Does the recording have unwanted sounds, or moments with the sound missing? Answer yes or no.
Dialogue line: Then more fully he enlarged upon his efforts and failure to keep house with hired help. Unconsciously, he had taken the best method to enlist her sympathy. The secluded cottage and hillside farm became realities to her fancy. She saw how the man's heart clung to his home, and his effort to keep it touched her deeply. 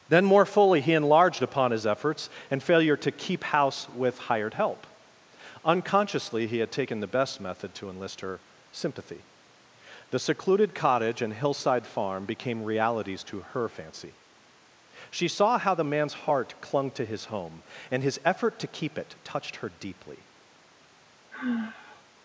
yes